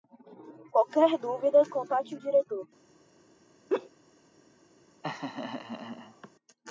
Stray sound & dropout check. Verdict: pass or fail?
fail